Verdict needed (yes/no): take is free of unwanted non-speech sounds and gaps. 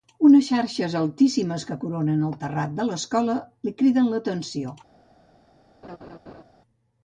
no